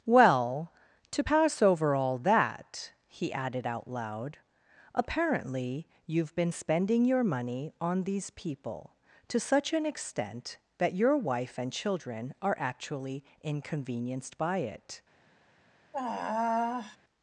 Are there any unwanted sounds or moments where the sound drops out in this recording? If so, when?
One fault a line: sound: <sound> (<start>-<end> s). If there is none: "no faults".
sound: sigh (15.9-17.0 s)